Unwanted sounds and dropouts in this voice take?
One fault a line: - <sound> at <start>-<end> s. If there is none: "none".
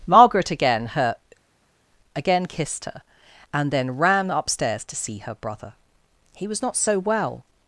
none